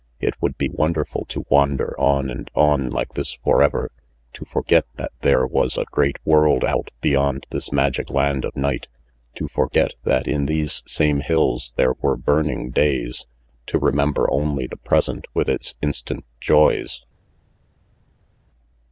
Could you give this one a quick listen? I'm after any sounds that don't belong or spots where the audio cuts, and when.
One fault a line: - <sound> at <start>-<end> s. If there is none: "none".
none